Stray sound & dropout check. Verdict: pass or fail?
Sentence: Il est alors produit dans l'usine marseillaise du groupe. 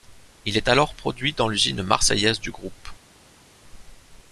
pass